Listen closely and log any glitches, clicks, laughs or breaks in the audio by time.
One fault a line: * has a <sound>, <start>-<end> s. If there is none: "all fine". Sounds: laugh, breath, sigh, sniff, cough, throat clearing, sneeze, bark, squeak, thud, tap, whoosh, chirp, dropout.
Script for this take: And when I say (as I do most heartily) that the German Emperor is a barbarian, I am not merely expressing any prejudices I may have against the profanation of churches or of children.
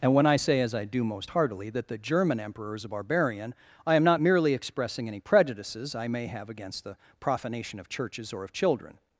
all fine